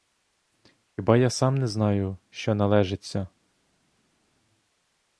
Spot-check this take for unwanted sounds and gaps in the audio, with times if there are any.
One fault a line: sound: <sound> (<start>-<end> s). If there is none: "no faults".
no faults